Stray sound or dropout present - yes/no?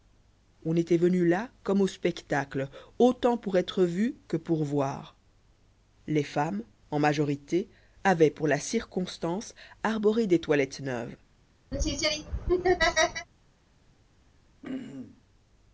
yes